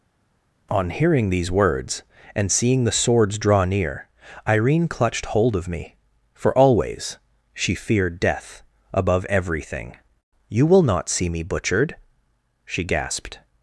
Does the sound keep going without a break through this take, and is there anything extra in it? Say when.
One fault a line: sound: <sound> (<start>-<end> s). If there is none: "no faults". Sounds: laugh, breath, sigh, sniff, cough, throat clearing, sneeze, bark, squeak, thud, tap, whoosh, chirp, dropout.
no faults